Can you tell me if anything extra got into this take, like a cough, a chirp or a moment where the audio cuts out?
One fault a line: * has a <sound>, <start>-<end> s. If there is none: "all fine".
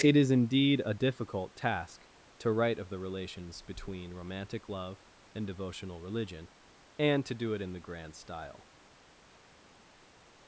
all fine